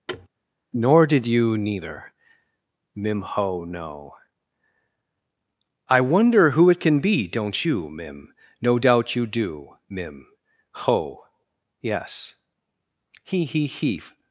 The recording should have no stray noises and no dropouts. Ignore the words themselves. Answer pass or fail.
fail